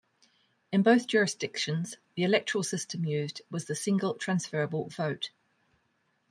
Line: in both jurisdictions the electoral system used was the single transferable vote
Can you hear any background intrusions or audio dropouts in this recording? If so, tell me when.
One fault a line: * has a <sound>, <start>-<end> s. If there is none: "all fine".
all fine